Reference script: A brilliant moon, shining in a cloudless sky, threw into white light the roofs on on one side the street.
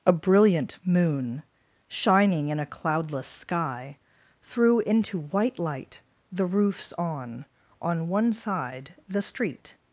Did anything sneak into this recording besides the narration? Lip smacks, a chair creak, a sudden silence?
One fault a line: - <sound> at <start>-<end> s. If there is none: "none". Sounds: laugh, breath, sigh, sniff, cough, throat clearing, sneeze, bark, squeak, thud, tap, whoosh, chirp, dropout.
none